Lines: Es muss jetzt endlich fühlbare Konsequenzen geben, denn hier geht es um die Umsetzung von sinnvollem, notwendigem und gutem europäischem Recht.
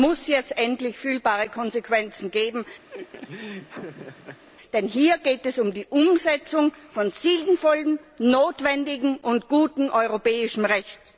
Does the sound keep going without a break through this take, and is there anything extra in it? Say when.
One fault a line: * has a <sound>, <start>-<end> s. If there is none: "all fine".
* has a laugh, 2.9-4.4 s